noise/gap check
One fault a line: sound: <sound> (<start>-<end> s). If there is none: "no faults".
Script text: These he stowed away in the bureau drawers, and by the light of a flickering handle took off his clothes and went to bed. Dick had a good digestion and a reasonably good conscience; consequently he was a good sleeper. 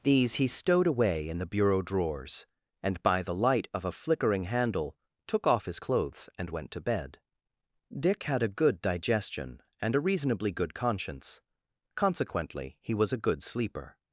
no faults